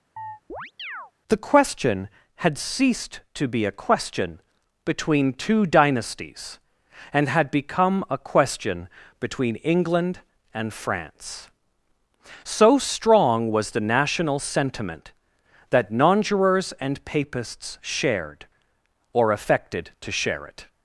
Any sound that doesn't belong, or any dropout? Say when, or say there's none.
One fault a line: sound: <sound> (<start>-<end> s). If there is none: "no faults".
sound: chirp (0.2-1.1 s)